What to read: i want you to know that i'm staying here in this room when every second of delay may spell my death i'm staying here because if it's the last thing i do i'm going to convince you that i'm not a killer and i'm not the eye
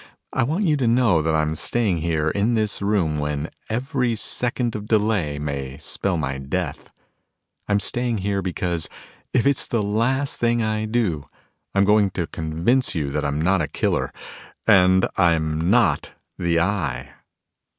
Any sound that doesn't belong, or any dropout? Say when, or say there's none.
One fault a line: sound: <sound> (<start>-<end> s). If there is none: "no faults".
no faults